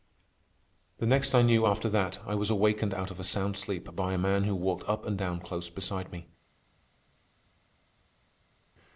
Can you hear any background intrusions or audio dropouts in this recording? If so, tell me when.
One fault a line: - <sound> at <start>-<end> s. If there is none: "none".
none